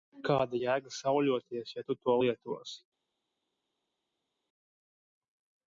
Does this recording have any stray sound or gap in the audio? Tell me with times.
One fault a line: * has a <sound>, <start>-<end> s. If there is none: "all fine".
all fine